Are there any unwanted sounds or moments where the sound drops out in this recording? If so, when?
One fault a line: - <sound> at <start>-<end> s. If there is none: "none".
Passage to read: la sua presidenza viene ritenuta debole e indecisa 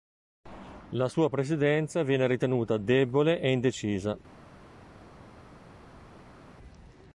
none